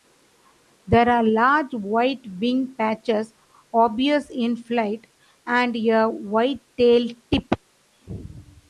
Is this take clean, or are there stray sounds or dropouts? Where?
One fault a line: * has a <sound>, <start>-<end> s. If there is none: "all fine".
all fine